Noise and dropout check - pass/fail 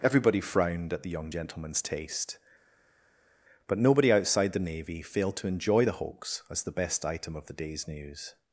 pass